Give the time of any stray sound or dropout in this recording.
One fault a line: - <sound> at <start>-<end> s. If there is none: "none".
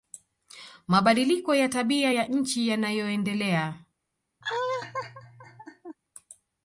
- laugh at 4.4-6.0 s